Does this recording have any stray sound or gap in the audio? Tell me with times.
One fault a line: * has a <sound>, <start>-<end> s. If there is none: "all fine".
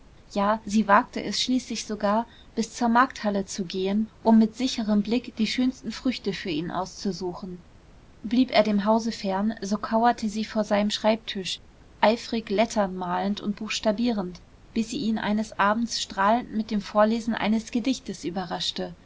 all fine